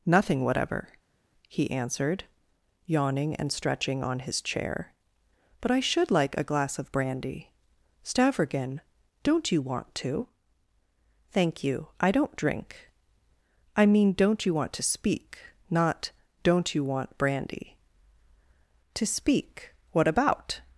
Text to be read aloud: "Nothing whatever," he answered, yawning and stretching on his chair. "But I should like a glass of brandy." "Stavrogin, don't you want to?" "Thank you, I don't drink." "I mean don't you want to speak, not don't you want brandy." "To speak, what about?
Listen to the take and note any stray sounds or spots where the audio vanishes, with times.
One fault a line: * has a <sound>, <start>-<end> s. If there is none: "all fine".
all fine